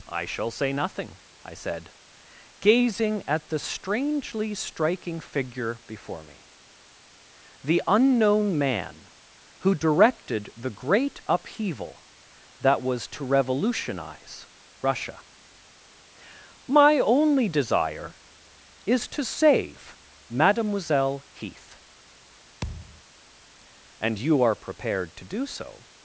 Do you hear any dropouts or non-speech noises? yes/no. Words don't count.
yes